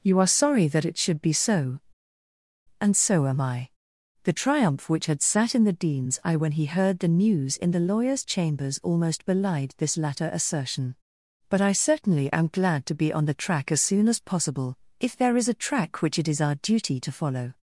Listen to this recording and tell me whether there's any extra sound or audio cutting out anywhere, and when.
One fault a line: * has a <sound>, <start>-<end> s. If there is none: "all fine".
all fine